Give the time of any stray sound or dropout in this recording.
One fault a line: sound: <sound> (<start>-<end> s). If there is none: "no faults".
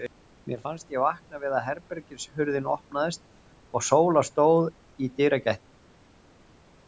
no faults